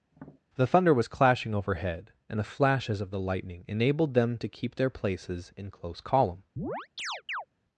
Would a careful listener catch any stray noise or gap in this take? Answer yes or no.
yes